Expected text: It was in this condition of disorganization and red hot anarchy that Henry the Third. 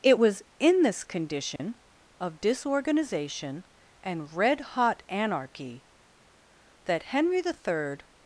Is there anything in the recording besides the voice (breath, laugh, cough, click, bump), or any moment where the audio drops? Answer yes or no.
yes